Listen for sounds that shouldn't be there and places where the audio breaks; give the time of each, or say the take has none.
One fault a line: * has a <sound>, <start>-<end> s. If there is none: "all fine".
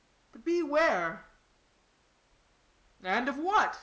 all fine